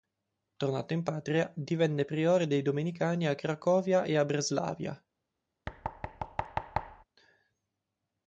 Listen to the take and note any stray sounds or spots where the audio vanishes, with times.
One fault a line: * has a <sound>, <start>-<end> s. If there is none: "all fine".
* has a thud, 5.7-7.0 s